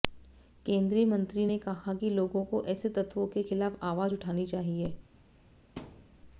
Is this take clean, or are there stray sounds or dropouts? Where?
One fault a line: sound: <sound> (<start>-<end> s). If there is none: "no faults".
sound: thud (5.8-6.2 s)